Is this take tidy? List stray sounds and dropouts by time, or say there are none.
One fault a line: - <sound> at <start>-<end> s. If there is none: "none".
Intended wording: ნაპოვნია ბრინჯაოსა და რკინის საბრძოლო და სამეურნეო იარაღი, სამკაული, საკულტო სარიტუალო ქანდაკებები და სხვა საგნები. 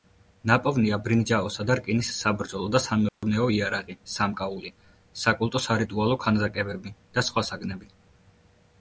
- dropout at 3.1-3.2 s